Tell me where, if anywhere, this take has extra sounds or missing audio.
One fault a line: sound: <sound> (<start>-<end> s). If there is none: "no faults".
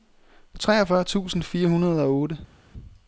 no faults